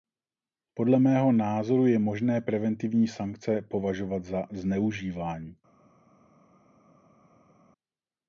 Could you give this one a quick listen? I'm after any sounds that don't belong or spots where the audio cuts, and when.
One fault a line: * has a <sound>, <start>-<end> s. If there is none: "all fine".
all fine